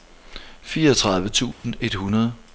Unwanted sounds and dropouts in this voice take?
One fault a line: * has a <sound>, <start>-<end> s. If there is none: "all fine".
* has a dropout, 1.5-1.6 s